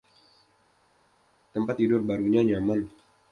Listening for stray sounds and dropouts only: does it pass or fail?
pass